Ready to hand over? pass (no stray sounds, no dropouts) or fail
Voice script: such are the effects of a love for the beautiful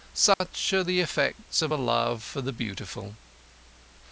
fail